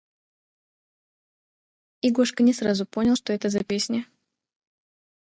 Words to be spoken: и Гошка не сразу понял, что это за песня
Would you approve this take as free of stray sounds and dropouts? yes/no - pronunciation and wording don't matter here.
yes